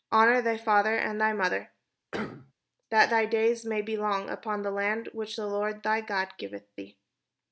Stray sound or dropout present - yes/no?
yes